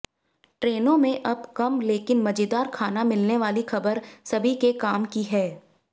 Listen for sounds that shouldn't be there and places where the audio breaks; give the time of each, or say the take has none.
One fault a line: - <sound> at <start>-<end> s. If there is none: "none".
none